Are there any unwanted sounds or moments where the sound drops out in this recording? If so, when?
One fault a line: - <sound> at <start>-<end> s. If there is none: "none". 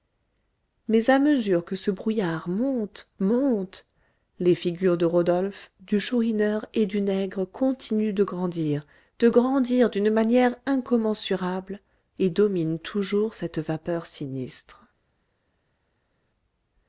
none